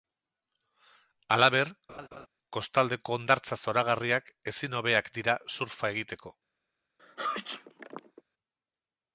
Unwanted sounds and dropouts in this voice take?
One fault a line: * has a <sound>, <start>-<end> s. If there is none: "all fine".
* has a laugh, 1.9-2.3 s
* has a sneeze, 7.0-8.2 s